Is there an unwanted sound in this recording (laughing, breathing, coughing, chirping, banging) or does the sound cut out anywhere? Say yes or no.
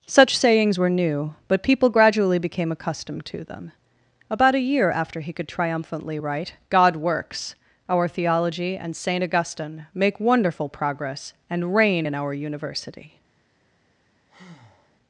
yes